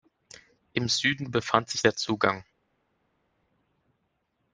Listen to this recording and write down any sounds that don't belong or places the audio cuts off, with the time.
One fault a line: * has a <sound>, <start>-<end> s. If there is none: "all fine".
all fine